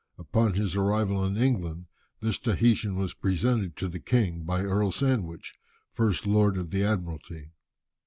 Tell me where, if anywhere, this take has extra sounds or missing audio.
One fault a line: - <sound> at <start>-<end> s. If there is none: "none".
none